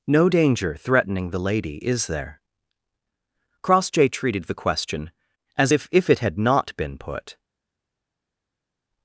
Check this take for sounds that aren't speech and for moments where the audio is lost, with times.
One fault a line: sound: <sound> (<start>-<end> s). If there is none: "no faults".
no faults